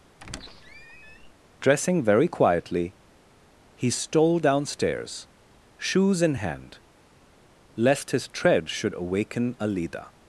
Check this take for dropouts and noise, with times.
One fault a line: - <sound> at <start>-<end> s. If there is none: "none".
- squeak at 0.2-1.3 s